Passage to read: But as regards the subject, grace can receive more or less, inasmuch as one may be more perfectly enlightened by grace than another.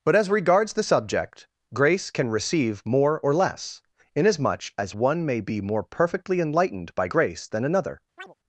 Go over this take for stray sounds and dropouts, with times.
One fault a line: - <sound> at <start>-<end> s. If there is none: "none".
- chirp at 8.2-8.3 s